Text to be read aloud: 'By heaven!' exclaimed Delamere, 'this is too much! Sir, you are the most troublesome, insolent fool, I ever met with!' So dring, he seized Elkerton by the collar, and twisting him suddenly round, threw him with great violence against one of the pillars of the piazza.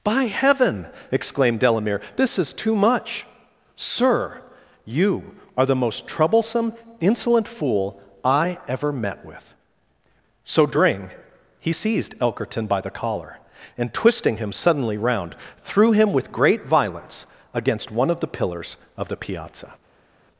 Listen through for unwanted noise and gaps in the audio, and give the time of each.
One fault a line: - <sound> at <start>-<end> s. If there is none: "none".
none